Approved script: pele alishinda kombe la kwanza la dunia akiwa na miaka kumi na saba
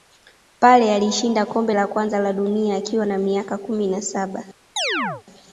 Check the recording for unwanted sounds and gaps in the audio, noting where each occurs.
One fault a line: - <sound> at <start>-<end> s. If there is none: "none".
- chirp at 4.8-5.2 s